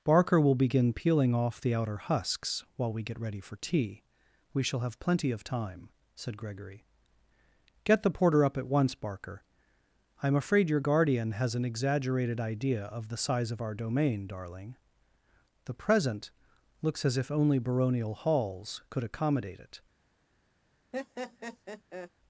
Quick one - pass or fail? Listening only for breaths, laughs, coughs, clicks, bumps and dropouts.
fail